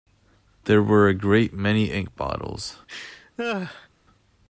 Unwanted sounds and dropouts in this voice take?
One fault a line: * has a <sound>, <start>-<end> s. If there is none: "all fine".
* has a laugh, 2.9-3.9 s